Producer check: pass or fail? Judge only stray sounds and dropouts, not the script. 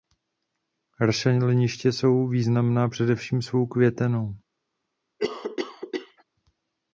fail